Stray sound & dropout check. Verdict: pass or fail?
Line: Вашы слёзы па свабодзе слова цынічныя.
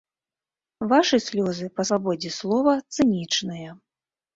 pass